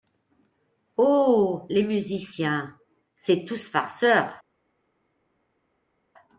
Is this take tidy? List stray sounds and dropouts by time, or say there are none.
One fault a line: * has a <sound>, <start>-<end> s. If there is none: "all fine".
all fine